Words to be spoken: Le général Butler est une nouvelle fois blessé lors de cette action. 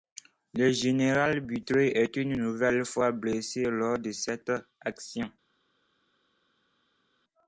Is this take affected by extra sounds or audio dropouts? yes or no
no